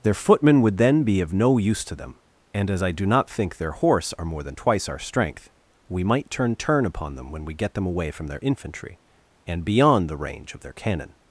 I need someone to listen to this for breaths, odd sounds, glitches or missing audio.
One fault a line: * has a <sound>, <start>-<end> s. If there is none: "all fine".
all fine